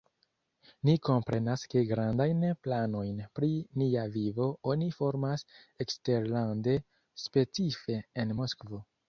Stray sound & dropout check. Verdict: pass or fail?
pass